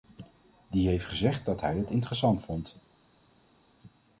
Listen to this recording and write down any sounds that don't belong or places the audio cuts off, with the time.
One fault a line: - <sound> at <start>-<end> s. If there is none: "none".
none